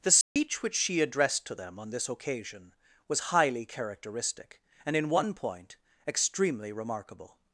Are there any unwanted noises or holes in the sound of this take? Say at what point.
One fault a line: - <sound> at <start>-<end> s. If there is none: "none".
- dropout at 0.2-0.4 s